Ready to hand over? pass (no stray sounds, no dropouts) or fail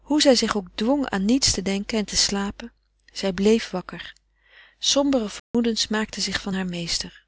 fail